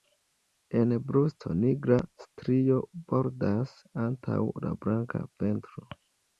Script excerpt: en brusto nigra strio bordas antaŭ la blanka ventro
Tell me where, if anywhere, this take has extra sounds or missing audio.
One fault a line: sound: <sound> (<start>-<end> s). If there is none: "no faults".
no faults